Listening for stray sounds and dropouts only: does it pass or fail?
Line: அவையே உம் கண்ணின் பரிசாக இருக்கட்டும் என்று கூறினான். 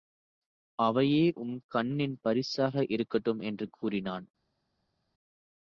pass